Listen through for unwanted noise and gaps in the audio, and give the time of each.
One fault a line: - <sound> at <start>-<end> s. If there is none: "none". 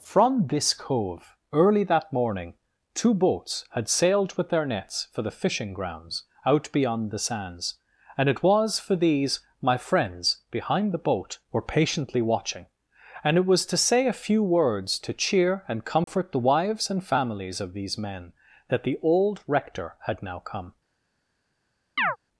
- dropout at 16.0-16.1 s
- chirp at 22.0-22.2 s